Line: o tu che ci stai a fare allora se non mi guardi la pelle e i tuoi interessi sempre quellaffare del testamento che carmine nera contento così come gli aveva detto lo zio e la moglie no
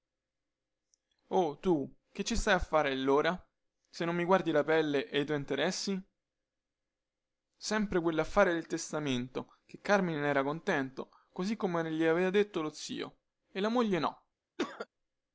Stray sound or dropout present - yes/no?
yes